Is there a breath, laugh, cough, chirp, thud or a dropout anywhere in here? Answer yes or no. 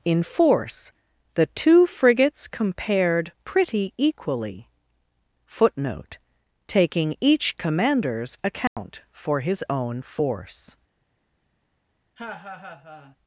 yes